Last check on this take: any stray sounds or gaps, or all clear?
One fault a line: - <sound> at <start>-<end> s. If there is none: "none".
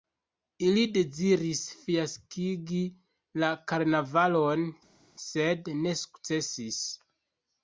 none